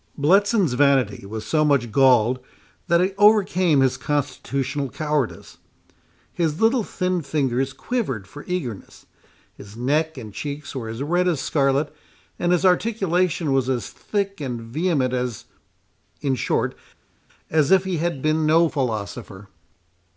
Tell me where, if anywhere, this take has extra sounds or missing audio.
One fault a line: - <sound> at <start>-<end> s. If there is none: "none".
none